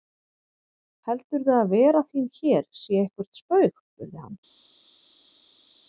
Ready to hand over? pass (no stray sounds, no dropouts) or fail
pass